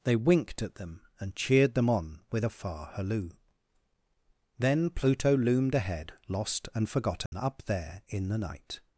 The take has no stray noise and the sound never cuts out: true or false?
false